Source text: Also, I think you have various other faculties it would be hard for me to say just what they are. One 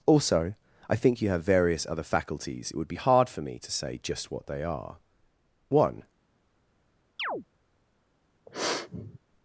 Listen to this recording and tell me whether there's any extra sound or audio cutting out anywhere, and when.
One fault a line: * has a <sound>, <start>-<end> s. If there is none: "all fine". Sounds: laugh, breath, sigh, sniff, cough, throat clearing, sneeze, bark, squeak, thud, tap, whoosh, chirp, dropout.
* has a chirp, 7.2-7.4 s
* has a sniff, 8.5-9.2 s